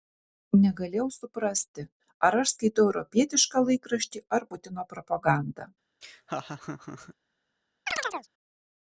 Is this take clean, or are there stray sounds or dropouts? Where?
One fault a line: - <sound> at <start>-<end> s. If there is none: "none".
- laugh at 6.0-7.1 s
- chirp at 7.9-8.3 s